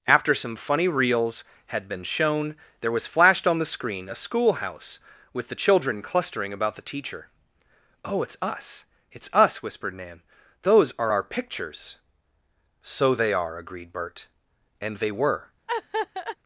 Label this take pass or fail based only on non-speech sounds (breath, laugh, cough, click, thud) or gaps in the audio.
fail